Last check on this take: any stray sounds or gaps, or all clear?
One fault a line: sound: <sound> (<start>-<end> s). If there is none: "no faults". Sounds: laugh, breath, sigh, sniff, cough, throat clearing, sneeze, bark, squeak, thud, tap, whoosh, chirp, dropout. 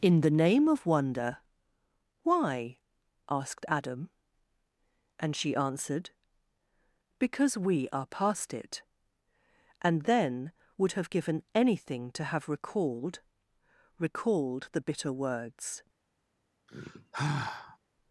sound: sigh (16.7-17.8 s)